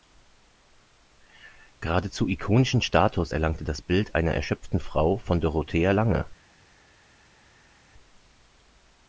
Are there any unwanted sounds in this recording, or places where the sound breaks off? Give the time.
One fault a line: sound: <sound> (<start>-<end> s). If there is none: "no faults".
no faults